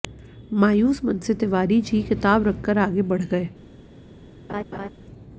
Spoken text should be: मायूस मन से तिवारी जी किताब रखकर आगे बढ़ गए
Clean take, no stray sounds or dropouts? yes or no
no